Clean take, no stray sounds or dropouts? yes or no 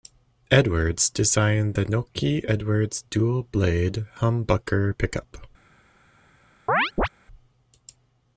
no